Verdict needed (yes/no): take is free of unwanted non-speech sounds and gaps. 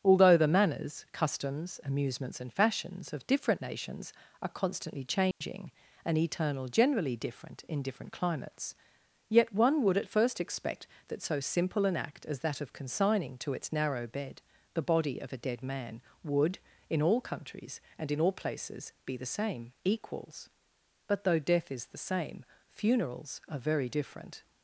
no